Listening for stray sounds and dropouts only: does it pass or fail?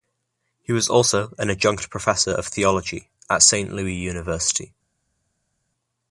pass